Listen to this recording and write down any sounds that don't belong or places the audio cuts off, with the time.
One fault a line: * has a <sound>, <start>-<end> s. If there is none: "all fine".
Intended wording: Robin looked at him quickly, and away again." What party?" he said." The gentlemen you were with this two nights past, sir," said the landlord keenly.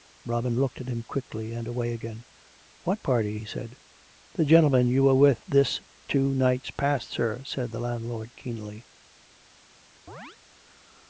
* has a chirp, 10.1-10.4 s